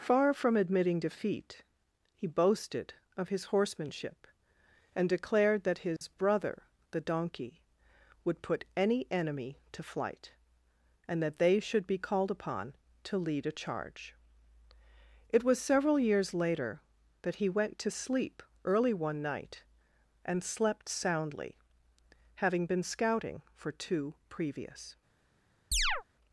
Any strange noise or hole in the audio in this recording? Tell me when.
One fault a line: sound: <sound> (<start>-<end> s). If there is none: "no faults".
sound: dropout (6.0-6.0 s)
sound: chirp (25.7-26.0 s)